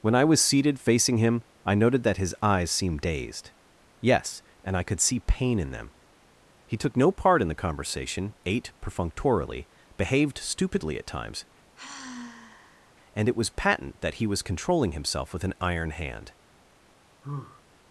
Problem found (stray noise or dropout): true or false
true